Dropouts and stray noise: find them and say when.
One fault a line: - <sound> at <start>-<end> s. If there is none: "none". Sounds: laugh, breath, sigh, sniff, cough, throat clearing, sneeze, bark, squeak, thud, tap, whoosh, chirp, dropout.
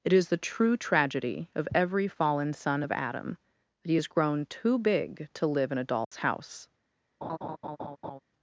- dropout at 6.0-6.1 s
- laugh at 7.2-8.2 s